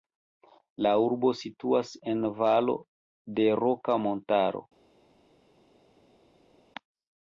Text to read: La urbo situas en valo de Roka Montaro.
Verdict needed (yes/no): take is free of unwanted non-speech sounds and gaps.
yes